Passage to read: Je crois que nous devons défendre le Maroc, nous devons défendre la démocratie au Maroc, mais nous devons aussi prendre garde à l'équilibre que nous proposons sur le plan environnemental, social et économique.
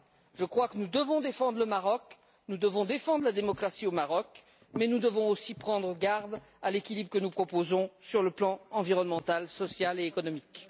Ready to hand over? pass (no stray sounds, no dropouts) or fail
pass